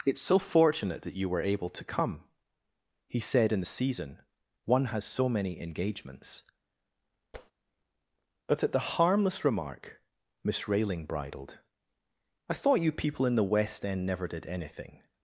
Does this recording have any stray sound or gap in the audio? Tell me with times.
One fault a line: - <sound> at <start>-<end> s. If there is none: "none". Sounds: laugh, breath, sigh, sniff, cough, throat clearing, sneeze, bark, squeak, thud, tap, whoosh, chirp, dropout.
- tap at 7.3-7.5 s